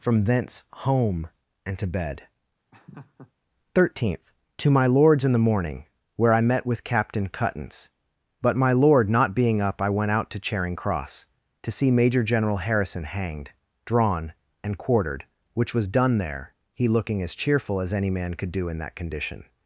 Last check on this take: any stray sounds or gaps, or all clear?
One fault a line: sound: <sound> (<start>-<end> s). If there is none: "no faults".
sound: laugh (2.7-3.3 s)